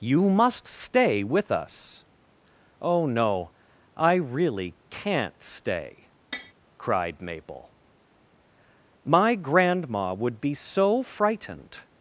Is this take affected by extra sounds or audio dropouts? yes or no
yes